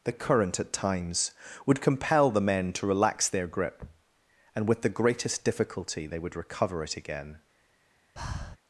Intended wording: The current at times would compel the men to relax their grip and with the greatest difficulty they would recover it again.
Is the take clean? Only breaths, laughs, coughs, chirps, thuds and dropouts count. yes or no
no